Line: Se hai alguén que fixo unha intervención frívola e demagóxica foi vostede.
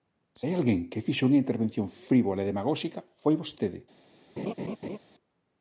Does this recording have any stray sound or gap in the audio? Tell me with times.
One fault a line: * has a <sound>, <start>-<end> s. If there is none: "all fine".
* has a laugh, 4.4-5.0 s